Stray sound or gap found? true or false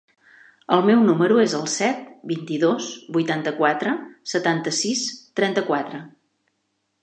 false